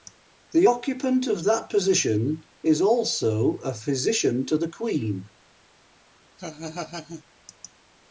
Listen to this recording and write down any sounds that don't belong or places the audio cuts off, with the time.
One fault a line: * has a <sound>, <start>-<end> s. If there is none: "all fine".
* has a laugh, 6.4-7.2 s